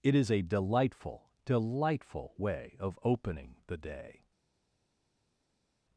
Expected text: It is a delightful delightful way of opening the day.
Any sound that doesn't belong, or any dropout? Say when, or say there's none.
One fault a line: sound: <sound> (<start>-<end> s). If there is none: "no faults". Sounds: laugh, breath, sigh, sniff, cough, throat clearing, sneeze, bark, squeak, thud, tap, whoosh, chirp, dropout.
no faults